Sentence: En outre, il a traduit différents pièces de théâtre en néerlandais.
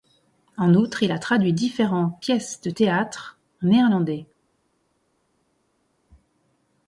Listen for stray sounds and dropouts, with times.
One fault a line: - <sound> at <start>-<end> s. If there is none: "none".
none